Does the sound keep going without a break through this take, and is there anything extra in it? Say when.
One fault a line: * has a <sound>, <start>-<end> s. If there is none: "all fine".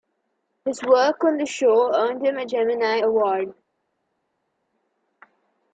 all fine